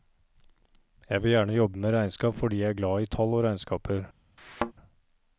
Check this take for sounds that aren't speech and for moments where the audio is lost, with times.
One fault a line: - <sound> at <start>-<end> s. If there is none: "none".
- thud at 4.4-4.7 s